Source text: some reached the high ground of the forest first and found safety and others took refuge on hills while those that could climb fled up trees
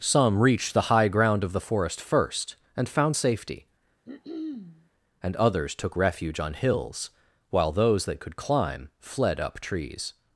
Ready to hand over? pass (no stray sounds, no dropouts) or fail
fail